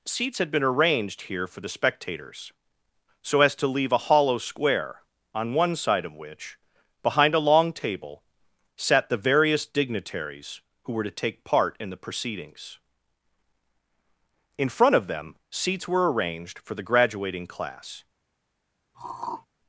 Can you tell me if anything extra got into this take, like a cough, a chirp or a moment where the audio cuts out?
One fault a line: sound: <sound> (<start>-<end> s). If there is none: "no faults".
sound: throat clearing (18.9-19.5 s)